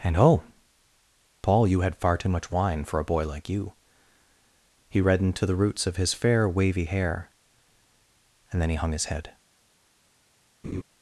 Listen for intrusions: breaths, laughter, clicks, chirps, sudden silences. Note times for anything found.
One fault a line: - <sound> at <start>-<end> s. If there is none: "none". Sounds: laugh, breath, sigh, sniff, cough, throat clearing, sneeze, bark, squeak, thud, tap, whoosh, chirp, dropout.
- laugh at 10.6-10.8 s